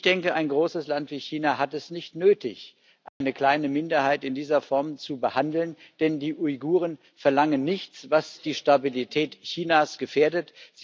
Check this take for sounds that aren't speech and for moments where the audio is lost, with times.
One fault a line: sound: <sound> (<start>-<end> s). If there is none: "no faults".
sound: dropout (3.1-3.2 s)